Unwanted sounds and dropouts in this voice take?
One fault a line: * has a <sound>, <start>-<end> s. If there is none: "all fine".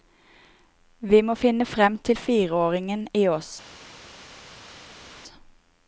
all fine